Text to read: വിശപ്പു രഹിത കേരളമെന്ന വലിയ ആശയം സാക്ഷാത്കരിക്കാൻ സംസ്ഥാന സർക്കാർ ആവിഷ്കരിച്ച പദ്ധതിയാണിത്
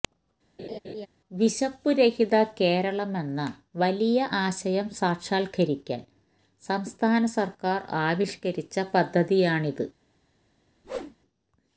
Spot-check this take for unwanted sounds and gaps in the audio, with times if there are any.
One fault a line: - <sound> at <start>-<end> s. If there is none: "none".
- laugh at 0.6-1.1 s
- whoosh at 10.8-11.2 s